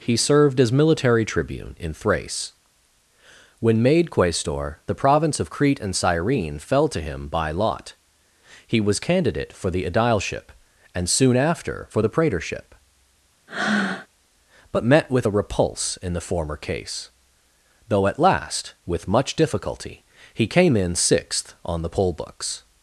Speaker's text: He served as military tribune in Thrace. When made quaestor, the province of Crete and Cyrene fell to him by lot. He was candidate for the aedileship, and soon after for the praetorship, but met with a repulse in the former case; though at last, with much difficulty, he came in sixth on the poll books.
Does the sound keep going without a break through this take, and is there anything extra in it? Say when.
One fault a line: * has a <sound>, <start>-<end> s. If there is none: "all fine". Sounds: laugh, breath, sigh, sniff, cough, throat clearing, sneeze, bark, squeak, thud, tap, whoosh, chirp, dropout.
* has a breath, 13.5-14.1 s